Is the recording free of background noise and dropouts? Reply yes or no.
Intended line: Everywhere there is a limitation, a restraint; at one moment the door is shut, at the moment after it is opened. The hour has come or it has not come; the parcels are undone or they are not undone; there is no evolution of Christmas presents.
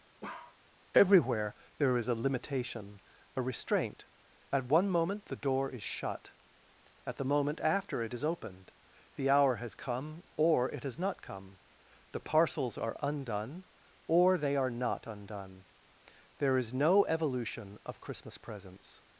no